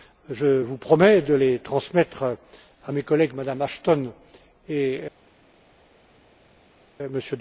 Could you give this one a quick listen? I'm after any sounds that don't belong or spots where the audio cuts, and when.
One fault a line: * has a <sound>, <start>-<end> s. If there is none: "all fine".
all fine